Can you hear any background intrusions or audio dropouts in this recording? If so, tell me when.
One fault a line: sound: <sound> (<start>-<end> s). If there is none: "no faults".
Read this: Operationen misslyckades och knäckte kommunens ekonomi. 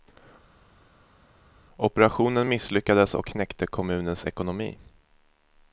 no faults